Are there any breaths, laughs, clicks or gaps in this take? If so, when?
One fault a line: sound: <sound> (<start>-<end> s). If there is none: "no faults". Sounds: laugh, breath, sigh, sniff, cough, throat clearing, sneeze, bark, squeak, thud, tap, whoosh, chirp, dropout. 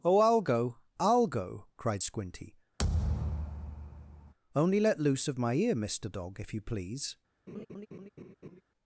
sound: thud (2.8-4.3 s)
sound: laugh (7.5-8.6 s)